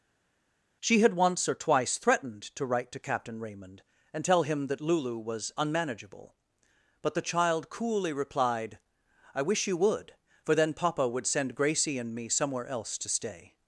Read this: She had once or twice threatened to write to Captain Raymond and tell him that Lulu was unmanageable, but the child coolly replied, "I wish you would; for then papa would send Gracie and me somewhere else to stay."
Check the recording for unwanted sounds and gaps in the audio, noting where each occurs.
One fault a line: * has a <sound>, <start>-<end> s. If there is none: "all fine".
all fine